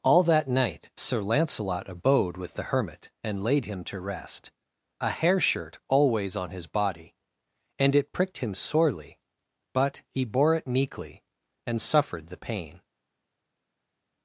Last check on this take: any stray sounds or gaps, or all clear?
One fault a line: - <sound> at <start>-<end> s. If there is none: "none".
none